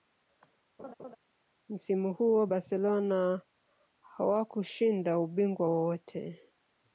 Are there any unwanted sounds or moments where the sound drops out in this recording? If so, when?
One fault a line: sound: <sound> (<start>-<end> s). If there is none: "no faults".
sound: laugh (0.8-1.2 s)